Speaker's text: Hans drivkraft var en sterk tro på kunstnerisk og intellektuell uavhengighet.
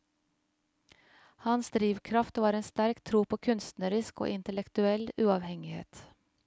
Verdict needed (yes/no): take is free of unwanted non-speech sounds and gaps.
yes